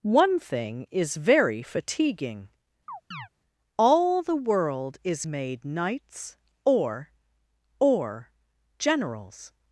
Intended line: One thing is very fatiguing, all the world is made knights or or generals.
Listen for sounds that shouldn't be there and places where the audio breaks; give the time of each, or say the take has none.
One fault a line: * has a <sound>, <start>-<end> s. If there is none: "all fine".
* has a chirp, 2.9-3.3 s